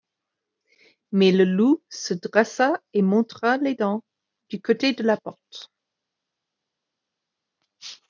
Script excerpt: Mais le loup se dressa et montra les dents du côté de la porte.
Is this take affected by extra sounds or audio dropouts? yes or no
no